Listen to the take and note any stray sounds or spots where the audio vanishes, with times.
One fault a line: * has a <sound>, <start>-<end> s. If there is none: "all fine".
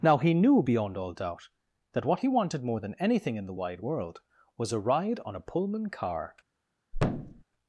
* has a thud, 6.9-7.4 s